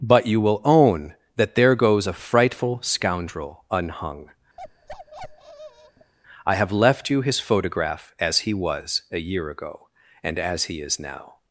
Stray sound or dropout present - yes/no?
yes